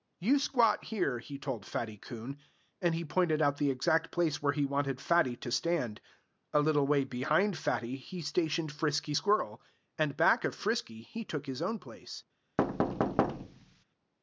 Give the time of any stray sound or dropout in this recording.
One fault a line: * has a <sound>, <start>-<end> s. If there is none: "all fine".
* has a thud, 12.6-13.8 s